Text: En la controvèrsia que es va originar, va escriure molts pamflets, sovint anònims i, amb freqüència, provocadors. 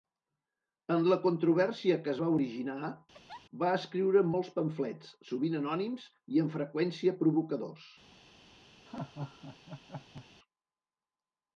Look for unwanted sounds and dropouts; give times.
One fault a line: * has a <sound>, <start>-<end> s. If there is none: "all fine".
* has a laugh, 3.1-3.5 s
* has a laugh, 8.9-10.3 s